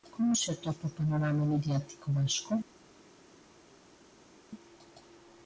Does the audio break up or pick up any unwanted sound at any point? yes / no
no